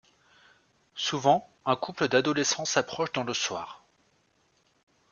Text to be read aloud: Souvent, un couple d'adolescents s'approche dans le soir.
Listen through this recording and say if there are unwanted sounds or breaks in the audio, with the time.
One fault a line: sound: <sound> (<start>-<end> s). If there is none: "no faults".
no faults